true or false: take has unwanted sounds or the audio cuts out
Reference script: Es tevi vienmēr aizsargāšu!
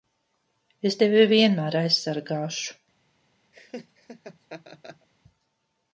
true